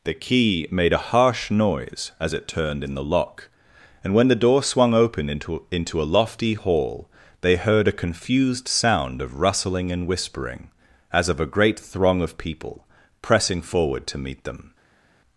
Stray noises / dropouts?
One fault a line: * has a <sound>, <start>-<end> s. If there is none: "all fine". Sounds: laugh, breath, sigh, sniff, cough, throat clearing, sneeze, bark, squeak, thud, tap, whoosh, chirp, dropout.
all fine